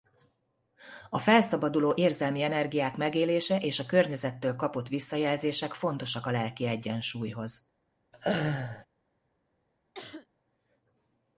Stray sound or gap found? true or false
true